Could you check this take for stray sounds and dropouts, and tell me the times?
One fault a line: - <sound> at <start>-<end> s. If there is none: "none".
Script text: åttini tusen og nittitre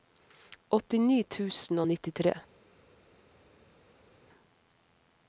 none